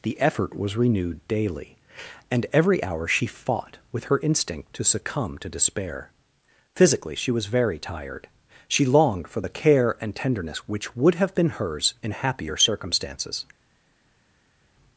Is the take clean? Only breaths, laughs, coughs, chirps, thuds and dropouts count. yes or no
yes